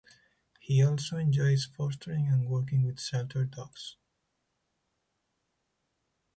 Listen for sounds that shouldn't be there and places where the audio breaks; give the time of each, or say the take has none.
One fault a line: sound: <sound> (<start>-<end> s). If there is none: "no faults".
no faults